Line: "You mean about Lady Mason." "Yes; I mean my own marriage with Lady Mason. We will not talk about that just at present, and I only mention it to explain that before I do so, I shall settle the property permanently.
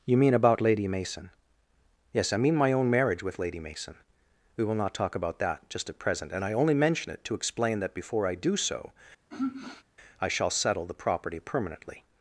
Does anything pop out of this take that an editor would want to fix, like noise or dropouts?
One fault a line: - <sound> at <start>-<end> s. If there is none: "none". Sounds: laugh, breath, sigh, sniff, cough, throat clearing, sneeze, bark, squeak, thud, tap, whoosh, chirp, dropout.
- sigh at 9.3-9.8 s